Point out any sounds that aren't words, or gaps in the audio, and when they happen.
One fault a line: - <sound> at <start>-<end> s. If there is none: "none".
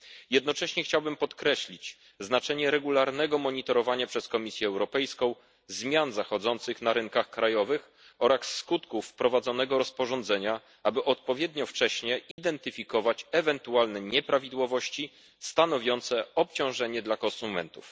- dropout at 12.3-12.4 s